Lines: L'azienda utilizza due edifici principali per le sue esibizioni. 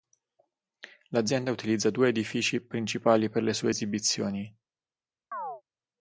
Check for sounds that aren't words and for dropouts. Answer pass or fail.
fail